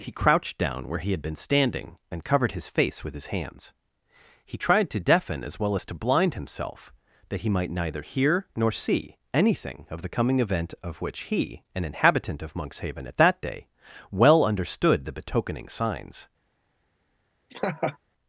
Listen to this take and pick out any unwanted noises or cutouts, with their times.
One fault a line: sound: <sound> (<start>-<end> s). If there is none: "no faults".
sound: laugh (17.5-18.0 s)